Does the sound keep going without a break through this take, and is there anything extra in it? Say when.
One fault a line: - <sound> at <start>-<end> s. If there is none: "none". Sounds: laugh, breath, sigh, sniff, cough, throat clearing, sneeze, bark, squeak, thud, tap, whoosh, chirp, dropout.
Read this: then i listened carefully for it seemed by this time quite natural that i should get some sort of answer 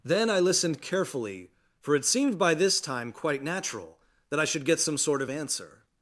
none